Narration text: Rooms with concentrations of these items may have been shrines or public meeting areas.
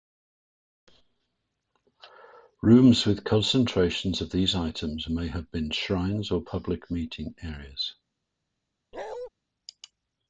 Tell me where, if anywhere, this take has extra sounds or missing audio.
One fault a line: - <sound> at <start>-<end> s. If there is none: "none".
- bark at 8.9-9.3 s